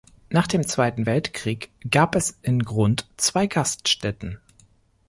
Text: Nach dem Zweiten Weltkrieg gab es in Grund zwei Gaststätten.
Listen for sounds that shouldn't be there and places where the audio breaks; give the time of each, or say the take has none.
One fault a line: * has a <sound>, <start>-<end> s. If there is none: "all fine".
all fine